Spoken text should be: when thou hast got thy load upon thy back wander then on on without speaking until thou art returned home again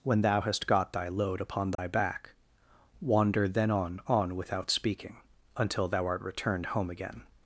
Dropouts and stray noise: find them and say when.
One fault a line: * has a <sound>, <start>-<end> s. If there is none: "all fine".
* has a dropout, 1.7-1.8 s